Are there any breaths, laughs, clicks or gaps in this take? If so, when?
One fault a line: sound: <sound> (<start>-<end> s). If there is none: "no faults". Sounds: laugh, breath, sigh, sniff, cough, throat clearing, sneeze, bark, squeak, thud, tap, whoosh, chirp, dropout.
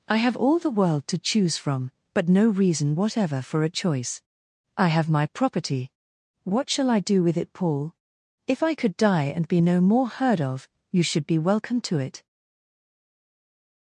no faults